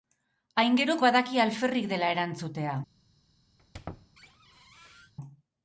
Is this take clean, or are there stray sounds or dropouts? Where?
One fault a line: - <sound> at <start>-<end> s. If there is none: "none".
- squeak at 3.6-5.1 s